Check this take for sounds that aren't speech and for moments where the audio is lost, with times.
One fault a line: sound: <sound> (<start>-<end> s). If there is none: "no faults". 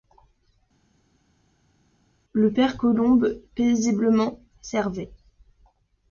no faults